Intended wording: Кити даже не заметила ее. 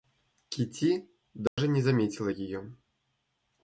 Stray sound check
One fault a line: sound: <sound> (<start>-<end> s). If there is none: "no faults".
sound: dropout (1.5-1.6 s)